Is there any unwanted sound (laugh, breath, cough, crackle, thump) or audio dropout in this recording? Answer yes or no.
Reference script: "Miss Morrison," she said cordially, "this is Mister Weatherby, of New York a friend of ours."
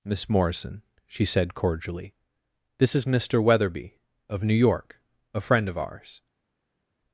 no